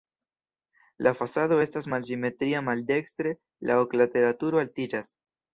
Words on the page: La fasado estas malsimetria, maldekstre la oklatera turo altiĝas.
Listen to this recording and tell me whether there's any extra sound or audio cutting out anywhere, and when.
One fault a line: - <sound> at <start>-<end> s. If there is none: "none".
none